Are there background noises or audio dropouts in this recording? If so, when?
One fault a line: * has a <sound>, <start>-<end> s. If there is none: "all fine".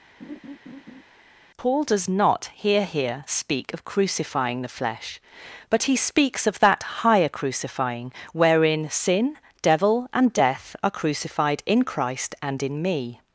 * has a laugh, 0.2-1.0 s